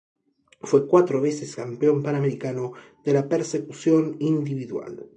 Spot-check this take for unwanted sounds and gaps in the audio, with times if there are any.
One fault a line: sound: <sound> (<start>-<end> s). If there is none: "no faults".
no faults